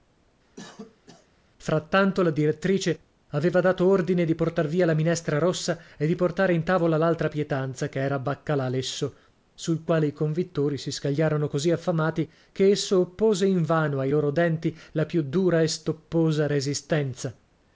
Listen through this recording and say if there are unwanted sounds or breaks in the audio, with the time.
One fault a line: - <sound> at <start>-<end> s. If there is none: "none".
- cough at 0.6-1.3 s